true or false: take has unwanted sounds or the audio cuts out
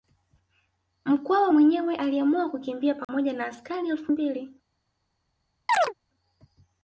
true